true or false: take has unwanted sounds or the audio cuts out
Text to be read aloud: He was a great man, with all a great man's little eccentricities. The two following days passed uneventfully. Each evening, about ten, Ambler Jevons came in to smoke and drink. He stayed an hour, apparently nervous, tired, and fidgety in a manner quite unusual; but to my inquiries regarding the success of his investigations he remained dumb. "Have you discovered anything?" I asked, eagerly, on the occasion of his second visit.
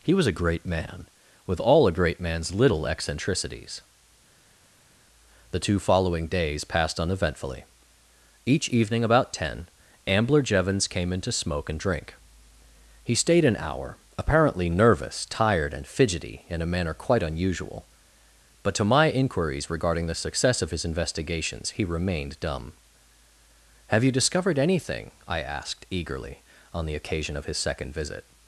false